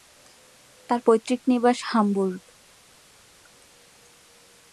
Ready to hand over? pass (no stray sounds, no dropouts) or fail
pass